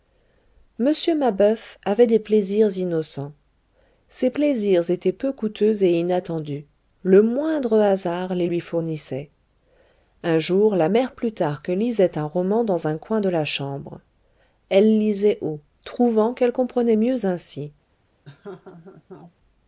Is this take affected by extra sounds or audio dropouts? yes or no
yes